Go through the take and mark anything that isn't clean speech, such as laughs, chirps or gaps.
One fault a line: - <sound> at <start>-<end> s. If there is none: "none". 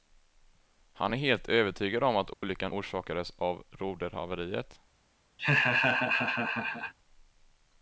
- dropout at 2.3-2.4 s
- laugh at 5.4-6.9 s